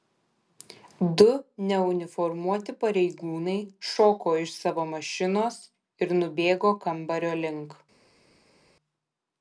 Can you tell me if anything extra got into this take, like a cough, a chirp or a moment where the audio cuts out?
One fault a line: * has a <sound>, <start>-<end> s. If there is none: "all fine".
all fine